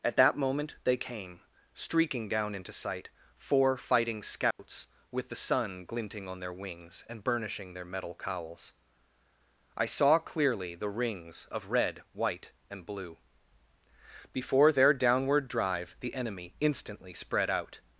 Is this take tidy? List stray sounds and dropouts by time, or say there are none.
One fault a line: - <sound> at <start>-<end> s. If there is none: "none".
- dropout at 4.5-4.6 s